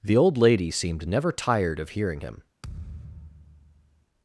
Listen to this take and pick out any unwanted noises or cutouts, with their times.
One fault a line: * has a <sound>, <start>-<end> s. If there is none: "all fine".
* has a thud, 2.6-4.1 s